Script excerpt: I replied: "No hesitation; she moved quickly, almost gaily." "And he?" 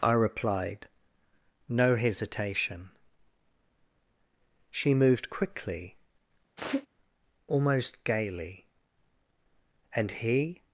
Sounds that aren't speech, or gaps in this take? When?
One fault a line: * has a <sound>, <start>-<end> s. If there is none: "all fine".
* has a sneeze, 6.6-6.9 s